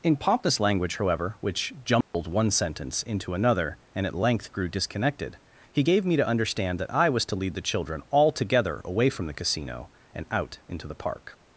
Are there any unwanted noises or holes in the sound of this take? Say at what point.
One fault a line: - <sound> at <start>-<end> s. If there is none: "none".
- dropout at 2.0-2.1 s